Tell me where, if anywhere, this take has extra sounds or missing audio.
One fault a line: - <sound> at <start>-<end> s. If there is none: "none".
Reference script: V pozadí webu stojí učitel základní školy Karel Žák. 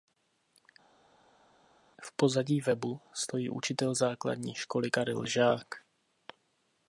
none